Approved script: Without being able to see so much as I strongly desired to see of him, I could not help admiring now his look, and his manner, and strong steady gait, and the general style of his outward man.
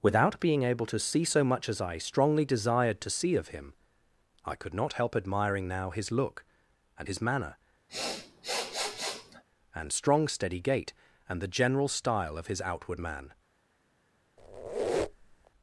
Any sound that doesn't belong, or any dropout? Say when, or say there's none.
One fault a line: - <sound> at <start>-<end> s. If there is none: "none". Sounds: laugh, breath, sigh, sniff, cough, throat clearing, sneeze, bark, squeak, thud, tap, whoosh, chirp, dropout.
- sniff at 7.9-9.4 s
- squeak at 14.4-15.5 s